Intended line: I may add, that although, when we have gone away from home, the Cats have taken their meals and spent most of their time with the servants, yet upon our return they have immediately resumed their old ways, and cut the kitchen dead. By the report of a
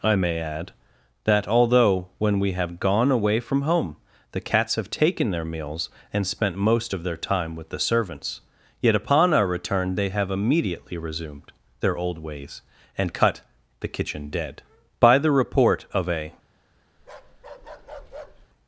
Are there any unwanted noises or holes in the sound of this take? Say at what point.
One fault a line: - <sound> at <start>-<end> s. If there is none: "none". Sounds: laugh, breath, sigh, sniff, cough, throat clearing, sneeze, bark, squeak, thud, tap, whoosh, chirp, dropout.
- bark at 17.0-18.5 s